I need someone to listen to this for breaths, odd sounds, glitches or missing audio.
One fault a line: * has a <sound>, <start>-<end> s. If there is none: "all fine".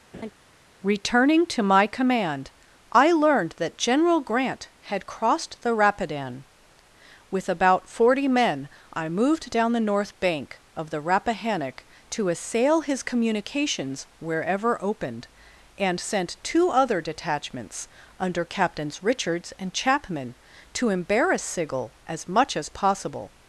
* has a laugh, 0.1-0.3 s